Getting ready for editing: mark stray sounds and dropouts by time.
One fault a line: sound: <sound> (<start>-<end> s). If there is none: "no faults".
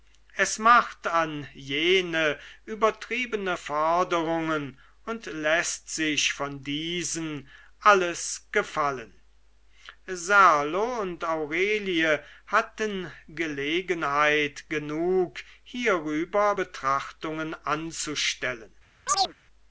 sound: chirp (19.1-19.3 s)